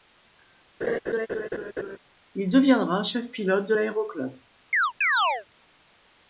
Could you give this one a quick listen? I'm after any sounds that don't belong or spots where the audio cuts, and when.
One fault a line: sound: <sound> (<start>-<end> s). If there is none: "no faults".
sound: laugh (0.8-2.0 s)
sound: chirp (4.7-5.5 s)